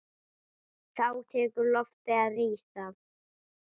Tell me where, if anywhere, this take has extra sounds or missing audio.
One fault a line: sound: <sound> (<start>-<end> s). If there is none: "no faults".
no faults